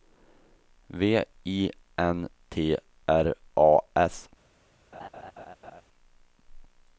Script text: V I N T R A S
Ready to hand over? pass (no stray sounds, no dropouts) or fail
fail